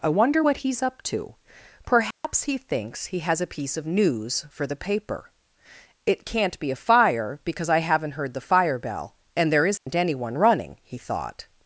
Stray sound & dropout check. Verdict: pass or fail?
fail